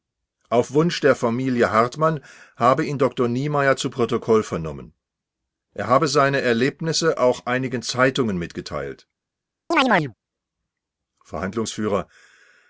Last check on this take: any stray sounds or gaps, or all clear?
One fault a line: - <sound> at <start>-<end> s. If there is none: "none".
- chirp at 9.7-10.1 s